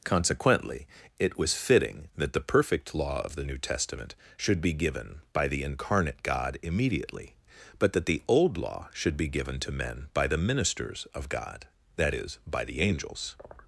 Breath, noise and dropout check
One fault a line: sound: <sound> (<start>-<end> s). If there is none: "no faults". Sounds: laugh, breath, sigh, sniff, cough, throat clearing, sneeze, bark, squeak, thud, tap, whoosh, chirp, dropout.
no faults